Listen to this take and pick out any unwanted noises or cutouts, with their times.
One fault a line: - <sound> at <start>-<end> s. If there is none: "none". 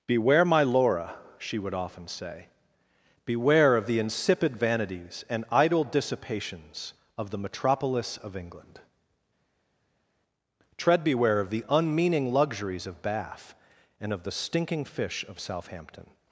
none